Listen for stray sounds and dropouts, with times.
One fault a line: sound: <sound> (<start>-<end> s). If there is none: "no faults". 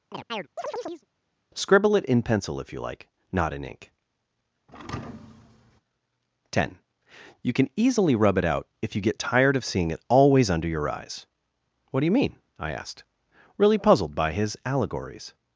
sound: chirp (0.1-1.1 s)
sound: thud (4.7-5.8 s)